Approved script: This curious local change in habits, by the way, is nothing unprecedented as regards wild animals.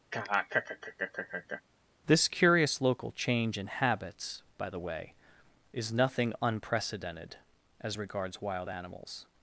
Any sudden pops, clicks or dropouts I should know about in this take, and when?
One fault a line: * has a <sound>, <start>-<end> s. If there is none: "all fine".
* has a laugh, 0.1-1.6 s